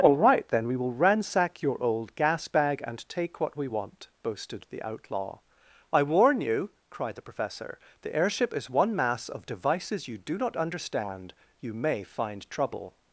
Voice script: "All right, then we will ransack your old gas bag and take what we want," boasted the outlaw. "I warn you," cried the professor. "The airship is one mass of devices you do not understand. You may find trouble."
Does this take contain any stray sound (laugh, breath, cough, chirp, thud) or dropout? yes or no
no